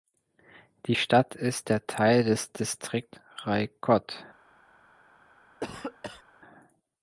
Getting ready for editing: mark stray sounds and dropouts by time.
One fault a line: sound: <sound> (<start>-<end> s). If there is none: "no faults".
sound: cough (5.6-6.2 s)